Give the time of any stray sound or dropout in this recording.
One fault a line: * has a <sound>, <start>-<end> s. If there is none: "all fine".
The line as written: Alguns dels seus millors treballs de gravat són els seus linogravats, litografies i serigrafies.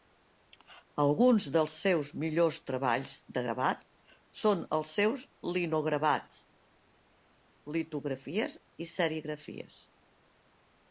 all fine